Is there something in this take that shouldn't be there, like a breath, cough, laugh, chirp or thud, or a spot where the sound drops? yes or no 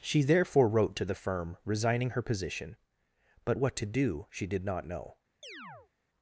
yes